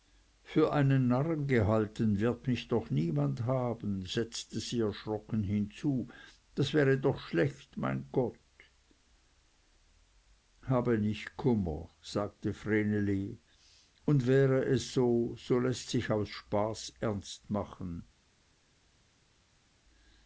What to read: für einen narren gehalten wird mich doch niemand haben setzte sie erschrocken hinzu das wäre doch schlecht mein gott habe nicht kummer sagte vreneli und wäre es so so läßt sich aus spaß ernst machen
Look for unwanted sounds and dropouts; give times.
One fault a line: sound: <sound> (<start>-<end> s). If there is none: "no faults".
no faults